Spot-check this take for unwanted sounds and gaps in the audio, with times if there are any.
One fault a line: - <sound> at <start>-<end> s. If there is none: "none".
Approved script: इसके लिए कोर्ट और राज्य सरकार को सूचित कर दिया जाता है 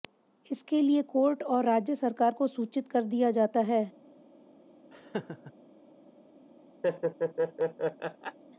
- laugh at 4.9-5.5 s
- laugh at 6.8-8.4 s